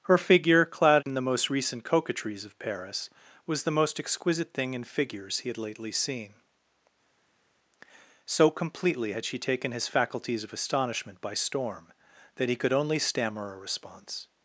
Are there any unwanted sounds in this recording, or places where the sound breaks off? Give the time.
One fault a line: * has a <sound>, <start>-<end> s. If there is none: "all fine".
all fine